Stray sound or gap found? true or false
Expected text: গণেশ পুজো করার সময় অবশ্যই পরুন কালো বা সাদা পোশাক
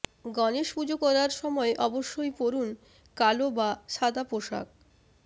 false